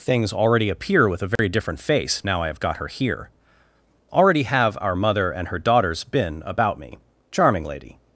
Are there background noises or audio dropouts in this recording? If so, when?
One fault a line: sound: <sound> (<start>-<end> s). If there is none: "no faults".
sound: dropout (1.4-1.4 s)